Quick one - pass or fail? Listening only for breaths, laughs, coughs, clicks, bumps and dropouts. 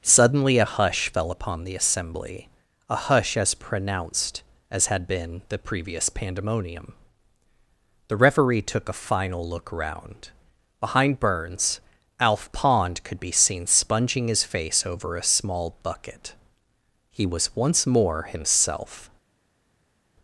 pass